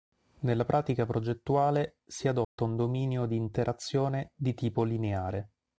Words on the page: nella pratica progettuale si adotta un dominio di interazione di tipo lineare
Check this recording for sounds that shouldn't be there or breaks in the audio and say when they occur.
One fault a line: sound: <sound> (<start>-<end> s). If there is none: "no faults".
sound: dropout (2.4-2.6 s)